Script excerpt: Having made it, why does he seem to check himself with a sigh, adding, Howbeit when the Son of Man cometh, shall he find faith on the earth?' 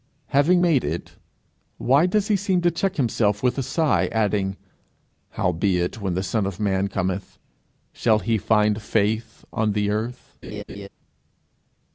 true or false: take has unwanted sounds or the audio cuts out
true